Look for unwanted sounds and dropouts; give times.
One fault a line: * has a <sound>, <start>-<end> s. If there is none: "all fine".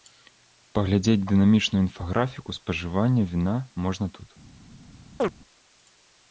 * has a chirp, 5.2-5.3 s